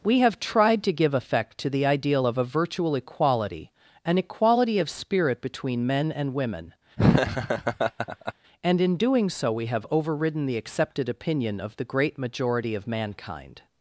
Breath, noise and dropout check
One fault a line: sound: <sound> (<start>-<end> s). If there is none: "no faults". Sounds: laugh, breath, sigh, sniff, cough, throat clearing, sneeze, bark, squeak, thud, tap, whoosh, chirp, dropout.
sound: laugh (7.0-8.3 s)